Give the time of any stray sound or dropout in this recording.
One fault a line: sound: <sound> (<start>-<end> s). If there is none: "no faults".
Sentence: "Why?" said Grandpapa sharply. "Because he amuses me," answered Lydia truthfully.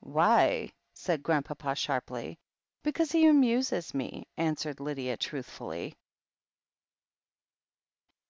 no faults